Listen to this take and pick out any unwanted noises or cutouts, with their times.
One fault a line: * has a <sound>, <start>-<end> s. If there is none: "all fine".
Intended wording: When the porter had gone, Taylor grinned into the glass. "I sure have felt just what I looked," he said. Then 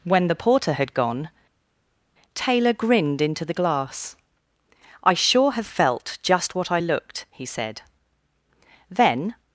all fine